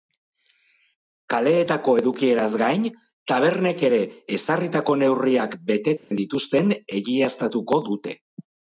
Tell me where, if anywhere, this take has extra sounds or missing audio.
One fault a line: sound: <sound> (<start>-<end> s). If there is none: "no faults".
sound: dropout (6.0-6.1 s)